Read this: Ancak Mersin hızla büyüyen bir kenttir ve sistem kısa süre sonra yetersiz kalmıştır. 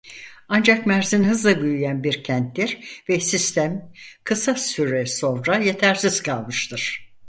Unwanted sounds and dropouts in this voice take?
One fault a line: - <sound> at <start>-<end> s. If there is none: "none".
none